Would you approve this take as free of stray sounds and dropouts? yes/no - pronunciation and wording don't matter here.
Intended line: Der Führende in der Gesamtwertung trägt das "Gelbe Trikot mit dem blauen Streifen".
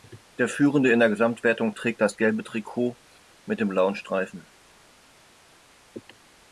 yes